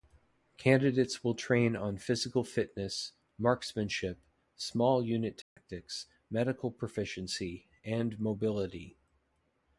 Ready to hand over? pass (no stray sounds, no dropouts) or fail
fail